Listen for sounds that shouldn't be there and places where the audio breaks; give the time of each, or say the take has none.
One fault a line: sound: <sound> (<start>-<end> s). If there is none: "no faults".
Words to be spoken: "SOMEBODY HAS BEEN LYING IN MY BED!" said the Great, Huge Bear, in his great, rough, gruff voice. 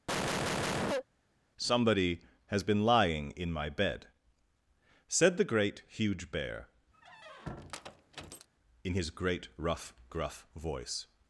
sound: cough (0.1-1.0 s)
sound: squeak (6.9-8.5 s)